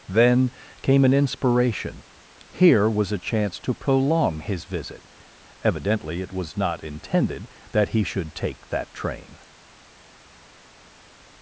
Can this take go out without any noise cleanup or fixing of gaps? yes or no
yes